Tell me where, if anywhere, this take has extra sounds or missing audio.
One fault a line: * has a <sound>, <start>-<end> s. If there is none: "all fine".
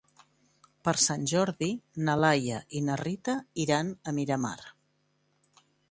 all fine